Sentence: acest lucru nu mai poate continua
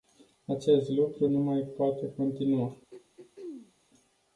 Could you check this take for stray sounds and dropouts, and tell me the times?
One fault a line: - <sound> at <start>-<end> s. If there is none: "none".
- throat clearing at 2.9-3.7 s